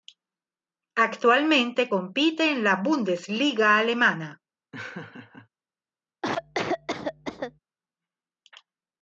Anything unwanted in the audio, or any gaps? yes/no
yes